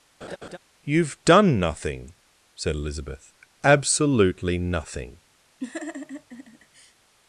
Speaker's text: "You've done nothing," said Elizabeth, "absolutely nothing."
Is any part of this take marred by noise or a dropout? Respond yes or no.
yes